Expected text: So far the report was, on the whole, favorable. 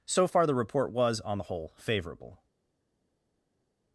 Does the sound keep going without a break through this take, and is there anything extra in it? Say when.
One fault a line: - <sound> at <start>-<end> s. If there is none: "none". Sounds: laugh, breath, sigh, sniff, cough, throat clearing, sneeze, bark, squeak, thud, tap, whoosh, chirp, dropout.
none